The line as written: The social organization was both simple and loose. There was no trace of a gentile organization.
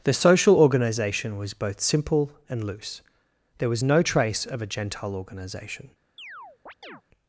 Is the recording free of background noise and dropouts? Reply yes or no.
no